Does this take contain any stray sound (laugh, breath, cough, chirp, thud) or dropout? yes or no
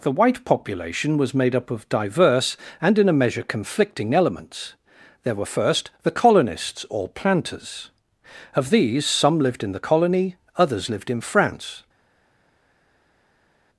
no